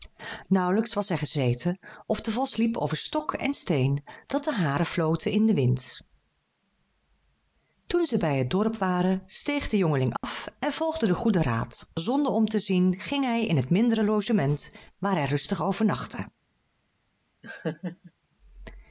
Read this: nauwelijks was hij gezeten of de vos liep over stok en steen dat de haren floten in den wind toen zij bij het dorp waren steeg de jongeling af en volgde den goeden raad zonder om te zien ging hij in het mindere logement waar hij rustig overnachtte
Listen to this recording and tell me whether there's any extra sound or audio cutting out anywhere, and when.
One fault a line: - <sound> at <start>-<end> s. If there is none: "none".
- dropout at 10.2-10.2 s
- laugh at 17.4-18.1 s